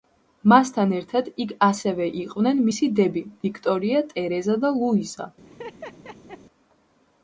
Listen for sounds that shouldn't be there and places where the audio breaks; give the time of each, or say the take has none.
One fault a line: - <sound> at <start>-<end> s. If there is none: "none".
- laugh at 5.5-6.4 s